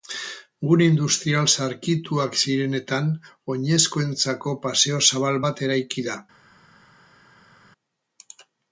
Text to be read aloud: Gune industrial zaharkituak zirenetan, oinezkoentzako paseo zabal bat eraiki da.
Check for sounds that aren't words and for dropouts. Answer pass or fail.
pass